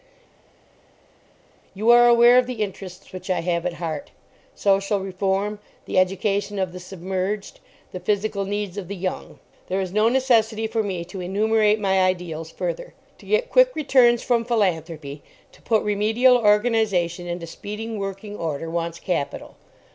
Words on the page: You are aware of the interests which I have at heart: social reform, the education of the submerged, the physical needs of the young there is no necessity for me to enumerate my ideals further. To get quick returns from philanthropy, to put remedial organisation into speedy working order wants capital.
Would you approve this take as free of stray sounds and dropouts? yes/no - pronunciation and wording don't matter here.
yes